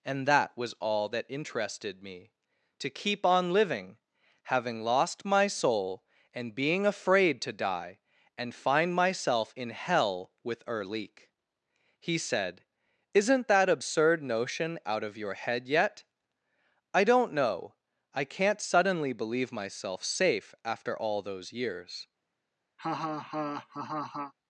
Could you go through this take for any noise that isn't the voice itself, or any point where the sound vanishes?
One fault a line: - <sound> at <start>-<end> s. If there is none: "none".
- laugh at 22.8-24.3 s